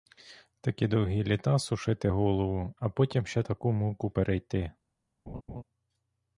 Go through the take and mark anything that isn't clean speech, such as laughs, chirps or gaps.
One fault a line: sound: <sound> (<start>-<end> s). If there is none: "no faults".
sound: laugh (5.3-5.6 s)